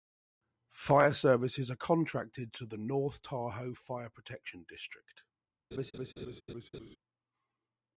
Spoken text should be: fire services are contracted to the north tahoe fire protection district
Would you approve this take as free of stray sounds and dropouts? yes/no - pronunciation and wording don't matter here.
no